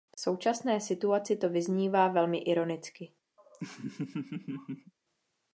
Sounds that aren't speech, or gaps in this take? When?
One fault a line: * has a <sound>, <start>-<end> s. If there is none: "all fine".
* has a laugh, 3.4-4.9 s